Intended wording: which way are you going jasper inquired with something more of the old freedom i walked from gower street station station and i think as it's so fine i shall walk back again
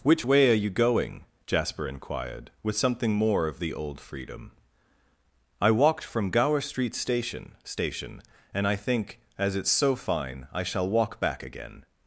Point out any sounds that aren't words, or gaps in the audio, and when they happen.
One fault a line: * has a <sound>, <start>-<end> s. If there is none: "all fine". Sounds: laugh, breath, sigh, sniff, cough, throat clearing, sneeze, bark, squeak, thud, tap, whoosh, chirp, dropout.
all fine